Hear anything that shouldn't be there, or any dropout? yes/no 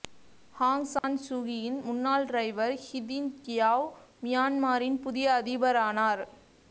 yes